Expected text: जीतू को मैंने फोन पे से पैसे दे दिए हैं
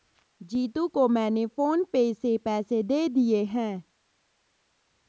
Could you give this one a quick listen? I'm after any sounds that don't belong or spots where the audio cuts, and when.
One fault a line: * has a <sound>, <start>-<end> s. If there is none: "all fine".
all fine